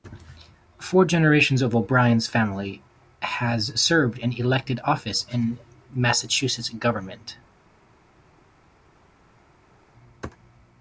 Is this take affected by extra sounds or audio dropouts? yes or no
no